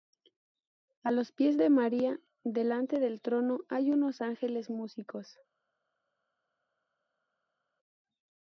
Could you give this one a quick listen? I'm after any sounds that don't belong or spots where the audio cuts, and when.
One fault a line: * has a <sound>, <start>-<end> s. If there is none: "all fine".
all fine